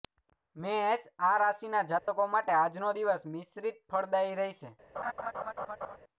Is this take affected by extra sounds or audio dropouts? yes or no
yes